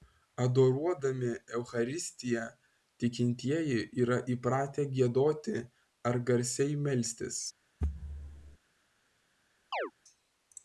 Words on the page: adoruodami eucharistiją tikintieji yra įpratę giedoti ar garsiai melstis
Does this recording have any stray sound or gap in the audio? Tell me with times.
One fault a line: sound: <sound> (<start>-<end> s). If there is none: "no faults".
sound: thud (7.8-8.6 s)
sound: chirp (9.7-9.9 s)